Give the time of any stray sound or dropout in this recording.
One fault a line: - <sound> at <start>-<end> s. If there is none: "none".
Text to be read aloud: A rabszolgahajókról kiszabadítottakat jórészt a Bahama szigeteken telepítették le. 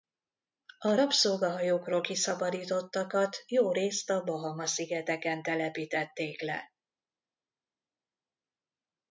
none